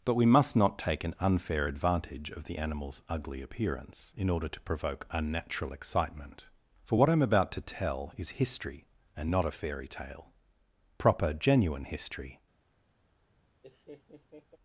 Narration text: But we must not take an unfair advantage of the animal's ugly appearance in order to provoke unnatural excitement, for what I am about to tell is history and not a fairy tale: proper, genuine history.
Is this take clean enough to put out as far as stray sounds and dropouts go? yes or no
no